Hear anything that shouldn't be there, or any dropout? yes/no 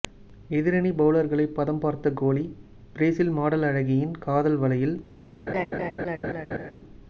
yes